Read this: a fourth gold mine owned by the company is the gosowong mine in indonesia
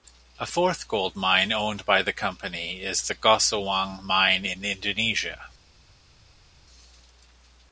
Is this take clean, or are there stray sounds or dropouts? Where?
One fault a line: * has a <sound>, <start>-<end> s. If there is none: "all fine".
all fine